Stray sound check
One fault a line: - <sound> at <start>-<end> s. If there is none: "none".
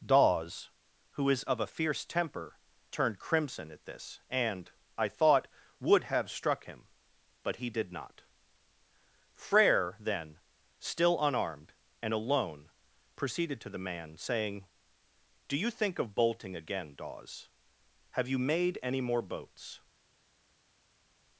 none